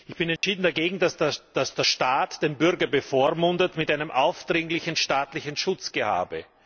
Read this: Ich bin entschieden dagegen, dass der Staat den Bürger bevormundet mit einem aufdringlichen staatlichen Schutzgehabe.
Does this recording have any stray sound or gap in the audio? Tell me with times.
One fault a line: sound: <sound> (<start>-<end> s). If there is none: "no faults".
sound: dropout (0.4-0.4 s)